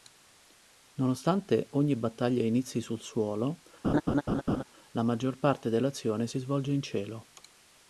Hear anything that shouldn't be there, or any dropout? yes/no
yes